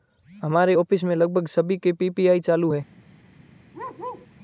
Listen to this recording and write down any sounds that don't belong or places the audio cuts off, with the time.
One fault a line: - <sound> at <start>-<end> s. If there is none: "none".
- bark at 3.7-4.3 s